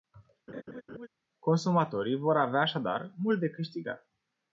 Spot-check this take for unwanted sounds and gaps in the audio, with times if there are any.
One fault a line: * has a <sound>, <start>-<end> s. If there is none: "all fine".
* has a laugh, 0.5-1.1 s